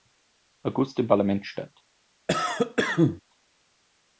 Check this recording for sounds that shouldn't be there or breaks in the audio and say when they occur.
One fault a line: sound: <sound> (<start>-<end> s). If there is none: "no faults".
sound: cough (2.3-3.2 s)